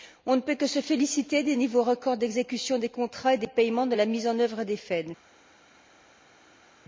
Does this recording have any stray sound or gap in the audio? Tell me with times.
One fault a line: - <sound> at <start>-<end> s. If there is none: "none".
none